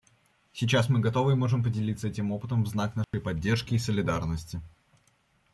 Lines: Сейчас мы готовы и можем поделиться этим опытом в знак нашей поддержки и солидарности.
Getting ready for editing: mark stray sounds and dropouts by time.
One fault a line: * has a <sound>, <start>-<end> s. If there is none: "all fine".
* has a dropout, 3.0-3.1 s